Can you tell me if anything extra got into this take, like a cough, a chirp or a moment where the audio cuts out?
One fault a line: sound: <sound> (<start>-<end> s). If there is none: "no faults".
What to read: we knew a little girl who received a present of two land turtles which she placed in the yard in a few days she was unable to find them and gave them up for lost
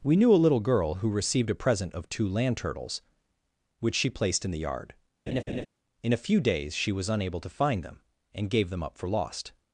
sound: laugh (5.3-5.7 s)